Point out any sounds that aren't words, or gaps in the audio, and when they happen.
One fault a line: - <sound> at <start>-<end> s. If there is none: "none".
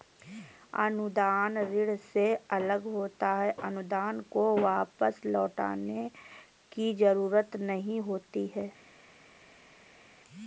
none